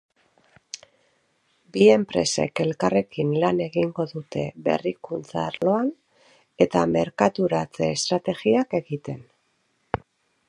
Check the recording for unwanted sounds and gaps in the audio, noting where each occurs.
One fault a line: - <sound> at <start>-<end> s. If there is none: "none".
- dropout at 5.6-5.6 s